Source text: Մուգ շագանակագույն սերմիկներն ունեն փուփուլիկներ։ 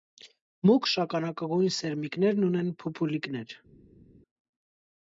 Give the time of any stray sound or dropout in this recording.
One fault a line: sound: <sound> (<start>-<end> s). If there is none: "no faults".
no faults